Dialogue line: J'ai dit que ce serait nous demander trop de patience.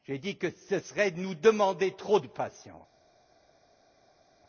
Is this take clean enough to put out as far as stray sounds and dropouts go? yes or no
yes